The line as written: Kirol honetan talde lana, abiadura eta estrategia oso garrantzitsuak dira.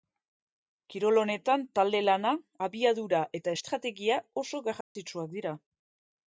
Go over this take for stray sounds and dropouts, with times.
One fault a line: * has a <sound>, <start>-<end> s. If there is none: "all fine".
* has a dropout, 4.8-5.0 s